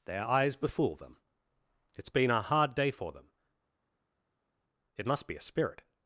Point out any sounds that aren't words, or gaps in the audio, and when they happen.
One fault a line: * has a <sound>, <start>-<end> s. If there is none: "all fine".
all fine